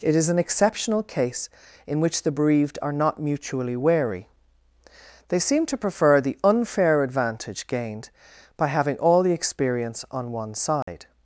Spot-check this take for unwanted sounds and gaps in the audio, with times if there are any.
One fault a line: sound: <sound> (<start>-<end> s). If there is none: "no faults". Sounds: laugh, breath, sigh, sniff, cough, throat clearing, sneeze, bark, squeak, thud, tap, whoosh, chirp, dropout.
sound: dropout (10.8-10.9 s)